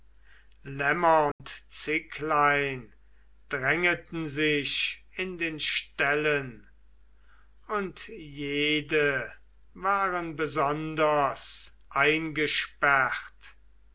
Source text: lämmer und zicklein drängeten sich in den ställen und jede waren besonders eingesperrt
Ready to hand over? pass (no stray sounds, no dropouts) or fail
fail